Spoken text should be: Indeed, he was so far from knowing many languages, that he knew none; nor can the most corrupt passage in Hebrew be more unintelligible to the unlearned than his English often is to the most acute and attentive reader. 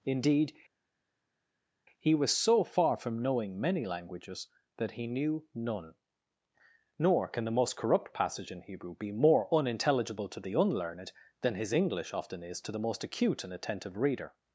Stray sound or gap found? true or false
false